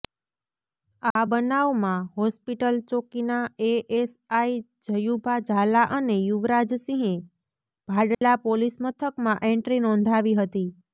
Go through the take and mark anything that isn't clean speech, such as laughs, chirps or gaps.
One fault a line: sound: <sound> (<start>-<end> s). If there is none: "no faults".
sound: dropout (1.1-1.2 s)
sound: dropout (8.1-8.2 s)